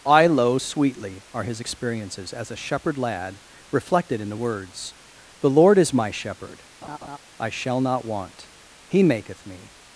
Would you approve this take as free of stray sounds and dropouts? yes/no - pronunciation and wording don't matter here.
no